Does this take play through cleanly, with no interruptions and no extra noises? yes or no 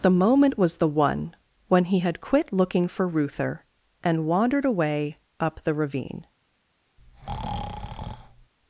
no